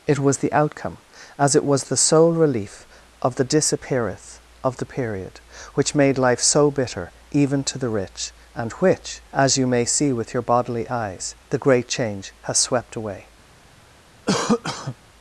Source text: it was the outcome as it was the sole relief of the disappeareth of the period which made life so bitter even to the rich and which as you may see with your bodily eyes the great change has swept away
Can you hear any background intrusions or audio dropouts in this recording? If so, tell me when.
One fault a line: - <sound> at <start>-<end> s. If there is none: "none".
- cough at 14.3-15.0 s